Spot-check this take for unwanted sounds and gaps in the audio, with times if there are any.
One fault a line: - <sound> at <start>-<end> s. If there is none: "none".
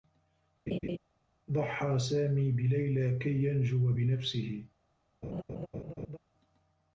- laugh at 0.7-1.0 s
- laugh at 5.2-6.2 s